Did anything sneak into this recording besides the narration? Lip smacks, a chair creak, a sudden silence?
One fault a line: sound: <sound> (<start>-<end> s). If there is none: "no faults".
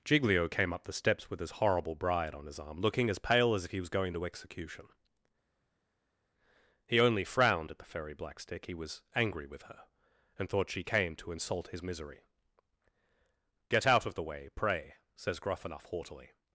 no faults